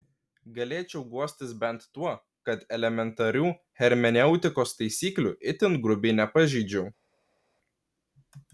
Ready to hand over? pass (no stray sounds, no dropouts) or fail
pass